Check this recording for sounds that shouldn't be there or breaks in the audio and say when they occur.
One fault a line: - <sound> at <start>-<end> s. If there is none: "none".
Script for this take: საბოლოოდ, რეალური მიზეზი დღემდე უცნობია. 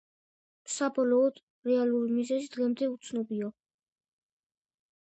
none